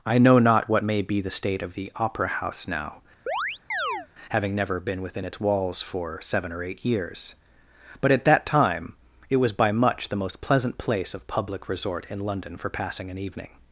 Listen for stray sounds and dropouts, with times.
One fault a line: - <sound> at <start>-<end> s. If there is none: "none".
- chirp at 3.3-4.1 s